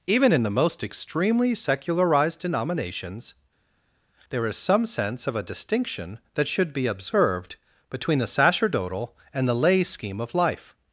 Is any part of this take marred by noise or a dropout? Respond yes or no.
no